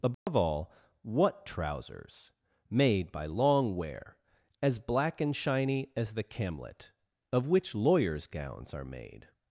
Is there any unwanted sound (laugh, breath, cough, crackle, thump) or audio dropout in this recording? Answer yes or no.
yes